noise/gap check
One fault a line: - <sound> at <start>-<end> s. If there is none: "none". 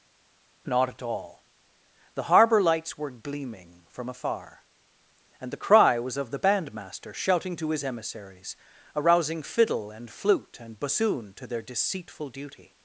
none